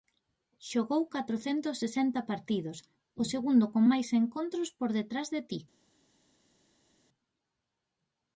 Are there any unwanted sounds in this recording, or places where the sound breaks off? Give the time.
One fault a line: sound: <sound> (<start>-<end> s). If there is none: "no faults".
no faults